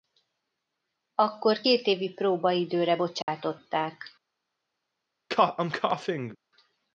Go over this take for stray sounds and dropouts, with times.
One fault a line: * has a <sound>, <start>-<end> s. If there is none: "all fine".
* has a dropout, 3.2-3.3 s
* has a cough, 5.3-6.4 s